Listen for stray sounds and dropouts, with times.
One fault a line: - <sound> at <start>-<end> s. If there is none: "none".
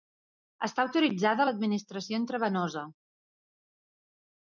none